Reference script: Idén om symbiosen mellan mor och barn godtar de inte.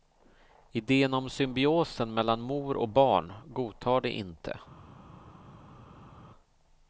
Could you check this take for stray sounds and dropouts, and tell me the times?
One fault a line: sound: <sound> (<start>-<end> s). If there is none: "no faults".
no faults